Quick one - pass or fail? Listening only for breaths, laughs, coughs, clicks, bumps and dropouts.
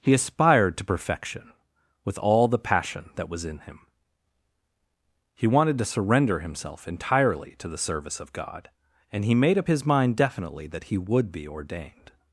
pass